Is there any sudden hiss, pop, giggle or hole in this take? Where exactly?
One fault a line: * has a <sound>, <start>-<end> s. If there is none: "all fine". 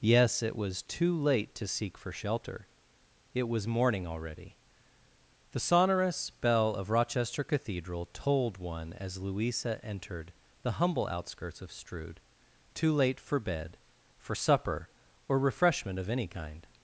all fine